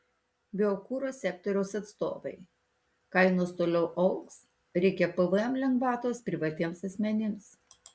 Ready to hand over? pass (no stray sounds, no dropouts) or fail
pass